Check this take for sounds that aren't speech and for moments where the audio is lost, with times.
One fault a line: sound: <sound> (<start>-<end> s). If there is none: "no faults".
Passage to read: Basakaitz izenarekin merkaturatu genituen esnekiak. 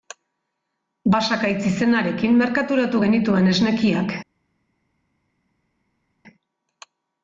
no faults